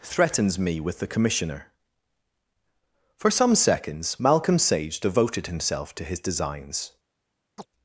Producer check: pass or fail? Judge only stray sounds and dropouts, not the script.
fail